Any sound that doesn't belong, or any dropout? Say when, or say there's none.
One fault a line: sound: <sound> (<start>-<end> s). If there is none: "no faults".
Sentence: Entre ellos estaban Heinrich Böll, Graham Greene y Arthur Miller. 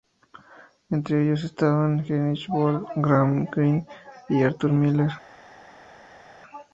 no faults